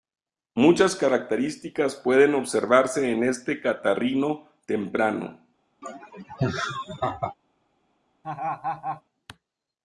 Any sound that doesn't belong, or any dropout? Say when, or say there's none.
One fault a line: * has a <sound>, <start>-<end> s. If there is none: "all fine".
* has a laugh, 5.8-7.3 s
* has a laugh, 8.2-9.0 s